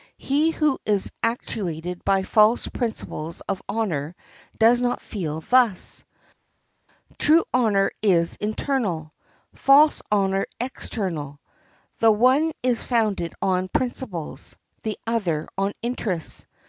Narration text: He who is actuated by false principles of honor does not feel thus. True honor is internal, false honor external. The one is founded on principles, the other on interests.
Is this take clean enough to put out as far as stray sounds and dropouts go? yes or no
yes